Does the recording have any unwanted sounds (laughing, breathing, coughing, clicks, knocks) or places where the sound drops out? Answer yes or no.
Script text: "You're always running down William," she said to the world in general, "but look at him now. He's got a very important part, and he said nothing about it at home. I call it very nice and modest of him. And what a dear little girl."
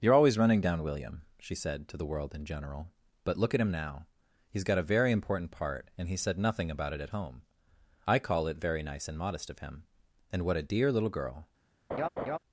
yes